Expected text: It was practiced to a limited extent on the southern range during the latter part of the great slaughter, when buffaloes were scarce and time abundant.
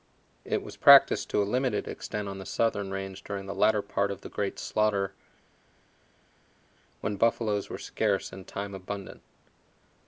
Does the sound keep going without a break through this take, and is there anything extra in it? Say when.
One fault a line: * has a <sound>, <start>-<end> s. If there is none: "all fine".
all fine